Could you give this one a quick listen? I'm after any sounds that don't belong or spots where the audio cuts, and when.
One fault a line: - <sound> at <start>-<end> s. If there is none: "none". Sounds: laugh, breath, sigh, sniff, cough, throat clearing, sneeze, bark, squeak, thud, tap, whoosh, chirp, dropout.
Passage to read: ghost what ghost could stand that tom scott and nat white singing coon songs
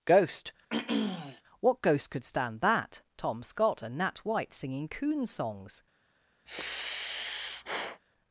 - throat clearing at 0.7-1.4 s
- sigh at 6.5-8.0 s